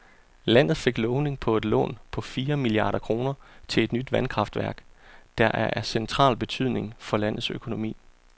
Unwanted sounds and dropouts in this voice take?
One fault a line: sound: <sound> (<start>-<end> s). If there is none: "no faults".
no faults